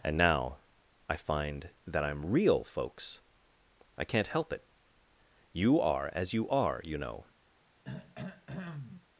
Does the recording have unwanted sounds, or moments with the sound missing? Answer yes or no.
yes